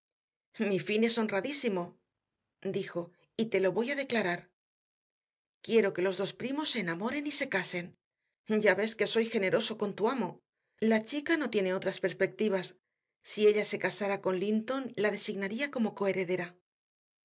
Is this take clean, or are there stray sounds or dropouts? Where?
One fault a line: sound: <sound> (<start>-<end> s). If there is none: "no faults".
no faults